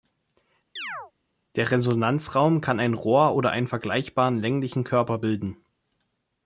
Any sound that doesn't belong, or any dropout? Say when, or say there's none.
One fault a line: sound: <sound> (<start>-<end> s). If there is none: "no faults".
sound: chirp (0.8-1.1 s)